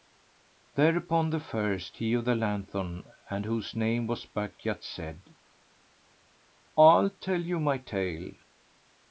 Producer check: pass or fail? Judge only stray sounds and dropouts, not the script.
pass